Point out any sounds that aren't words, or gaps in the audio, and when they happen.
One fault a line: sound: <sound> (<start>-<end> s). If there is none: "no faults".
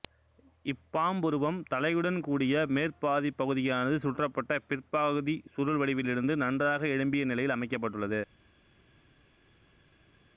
no faults